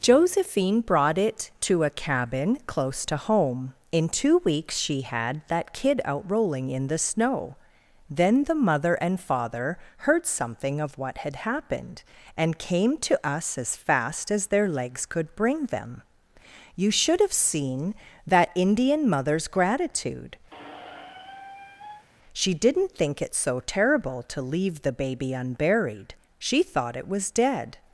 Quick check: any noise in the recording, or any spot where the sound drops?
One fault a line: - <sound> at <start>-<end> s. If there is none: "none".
- squeak at 20.5-22.1 s